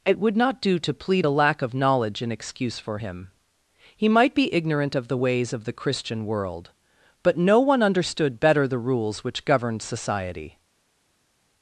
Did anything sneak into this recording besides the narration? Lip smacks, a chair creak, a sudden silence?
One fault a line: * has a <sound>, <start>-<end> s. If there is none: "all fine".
all fine